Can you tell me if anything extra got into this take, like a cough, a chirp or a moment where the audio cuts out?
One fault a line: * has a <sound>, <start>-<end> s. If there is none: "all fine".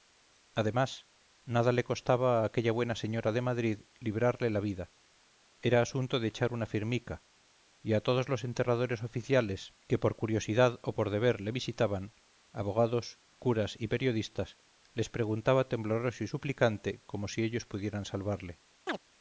* has a chirp, 18.9-19.0 s